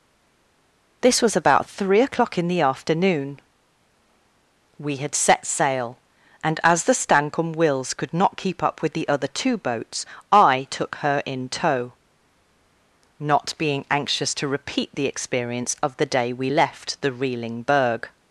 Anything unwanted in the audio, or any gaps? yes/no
no